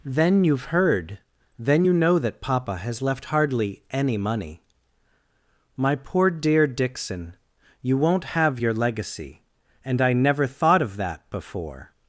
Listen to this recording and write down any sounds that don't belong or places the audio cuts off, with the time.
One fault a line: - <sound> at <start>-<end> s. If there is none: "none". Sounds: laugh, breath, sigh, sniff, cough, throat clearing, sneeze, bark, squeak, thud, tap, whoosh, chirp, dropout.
none